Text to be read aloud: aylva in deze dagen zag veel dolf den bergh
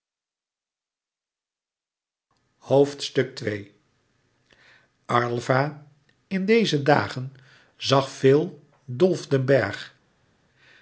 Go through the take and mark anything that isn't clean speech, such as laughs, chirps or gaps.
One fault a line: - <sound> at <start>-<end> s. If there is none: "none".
none